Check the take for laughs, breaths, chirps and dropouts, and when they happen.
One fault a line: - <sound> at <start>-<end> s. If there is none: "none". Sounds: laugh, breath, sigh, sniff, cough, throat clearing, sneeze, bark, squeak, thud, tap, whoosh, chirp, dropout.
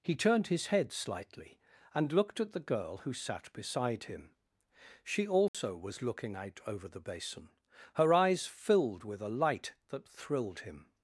- dropout at 5.5-5.5 s